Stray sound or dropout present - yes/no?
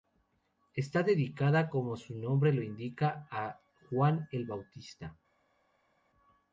no